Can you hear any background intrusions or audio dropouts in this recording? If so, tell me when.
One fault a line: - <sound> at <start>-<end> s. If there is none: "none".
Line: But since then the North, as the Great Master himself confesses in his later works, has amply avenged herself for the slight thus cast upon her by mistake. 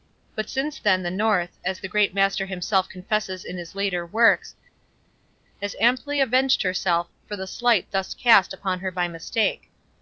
none